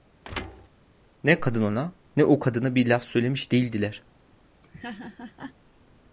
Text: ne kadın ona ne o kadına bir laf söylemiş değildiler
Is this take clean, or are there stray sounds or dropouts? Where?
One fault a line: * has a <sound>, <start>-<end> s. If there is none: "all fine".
* has a thud, 0.2-0.7 s
* has a laugh, 4.6-5.5 s